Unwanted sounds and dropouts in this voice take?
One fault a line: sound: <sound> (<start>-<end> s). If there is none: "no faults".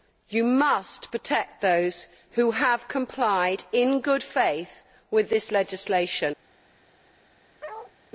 sound: bark (7.6-7.9 s)